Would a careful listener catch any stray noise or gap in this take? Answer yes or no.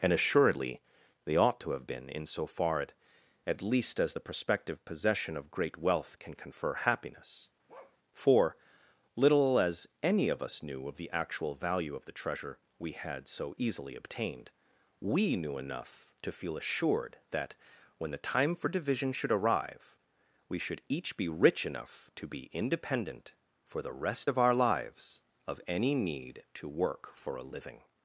yes